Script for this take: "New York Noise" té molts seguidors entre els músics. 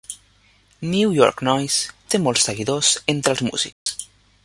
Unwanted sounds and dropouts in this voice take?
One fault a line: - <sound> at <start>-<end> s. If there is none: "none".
- dropout at 3.7-3.9 s